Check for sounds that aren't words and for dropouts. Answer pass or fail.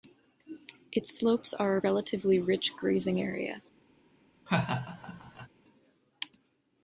fail